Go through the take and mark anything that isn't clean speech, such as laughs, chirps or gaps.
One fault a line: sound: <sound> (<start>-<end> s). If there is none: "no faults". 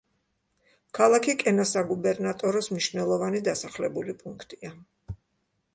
no faults